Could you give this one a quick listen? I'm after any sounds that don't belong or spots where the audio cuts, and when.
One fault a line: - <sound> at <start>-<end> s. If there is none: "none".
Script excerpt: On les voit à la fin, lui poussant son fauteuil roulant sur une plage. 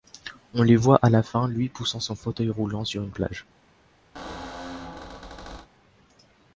- squeak at 4.1-5.7 s